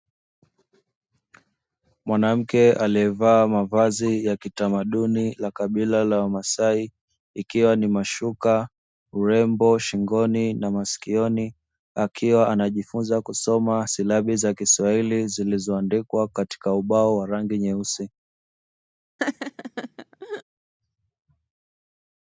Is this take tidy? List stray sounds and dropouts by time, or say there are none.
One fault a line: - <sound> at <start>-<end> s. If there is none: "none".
- laugh at 19.2-20.4 s